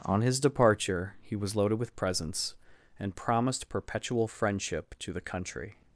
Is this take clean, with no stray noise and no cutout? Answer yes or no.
yes